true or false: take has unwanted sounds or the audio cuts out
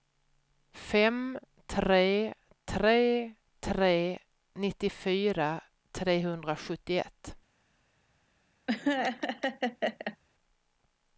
true